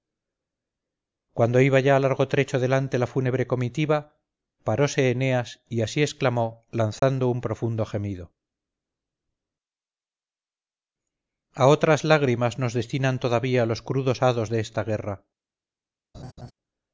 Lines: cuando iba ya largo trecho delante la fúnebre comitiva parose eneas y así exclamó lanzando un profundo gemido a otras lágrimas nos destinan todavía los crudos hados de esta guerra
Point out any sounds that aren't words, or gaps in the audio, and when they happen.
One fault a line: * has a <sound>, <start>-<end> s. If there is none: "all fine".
* has a dropout, 7.0-7.0 s
* has a laugh, 16.1-16.5 s